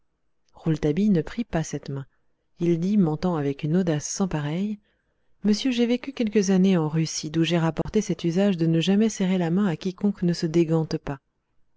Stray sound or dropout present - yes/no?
yes